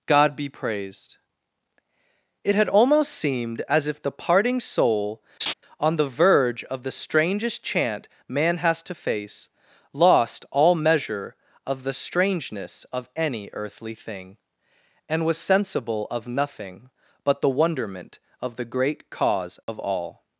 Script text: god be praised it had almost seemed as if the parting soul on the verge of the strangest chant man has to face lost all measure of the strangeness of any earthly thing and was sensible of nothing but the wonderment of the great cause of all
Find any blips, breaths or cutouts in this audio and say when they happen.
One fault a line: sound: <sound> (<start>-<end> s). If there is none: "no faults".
sound: laugh (5.4-5.5 s)
sound: dropout (19.6-19.7 s)